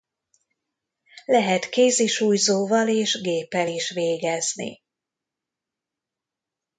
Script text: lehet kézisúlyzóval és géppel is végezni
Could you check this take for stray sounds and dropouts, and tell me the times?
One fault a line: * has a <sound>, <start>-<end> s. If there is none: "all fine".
all fine